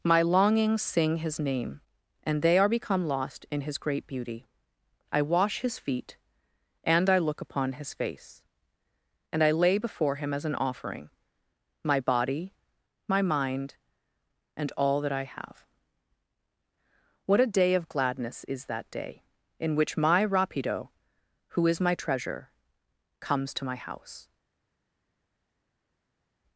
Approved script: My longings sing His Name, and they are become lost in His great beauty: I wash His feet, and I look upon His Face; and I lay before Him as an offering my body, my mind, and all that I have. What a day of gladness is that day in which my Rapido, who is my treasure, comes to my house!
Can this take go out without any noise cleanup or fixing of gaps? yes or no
yes